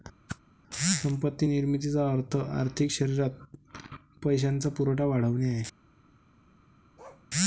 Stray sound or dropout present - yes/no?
yes